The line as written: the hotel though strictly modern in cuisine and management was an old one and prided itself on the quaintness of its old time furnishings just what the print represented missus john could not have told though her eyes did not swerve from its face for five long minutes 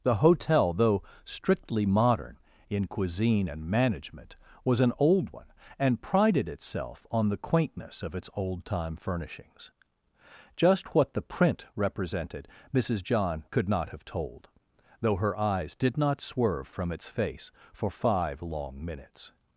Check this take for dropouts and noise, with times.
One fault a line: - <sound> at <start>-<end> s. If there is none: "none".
none